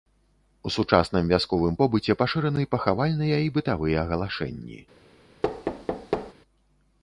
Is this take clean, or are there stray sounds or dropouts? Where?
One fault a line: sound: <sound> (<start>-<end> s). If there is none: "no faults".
sound: thud (5.4-6.3 s)